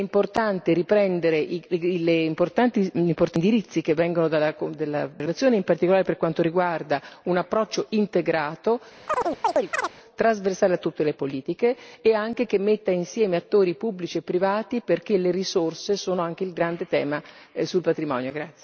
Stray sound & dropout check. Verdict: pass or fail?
fail